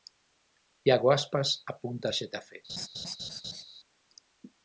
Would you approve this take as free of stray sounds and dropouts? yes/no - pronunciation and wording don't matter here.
no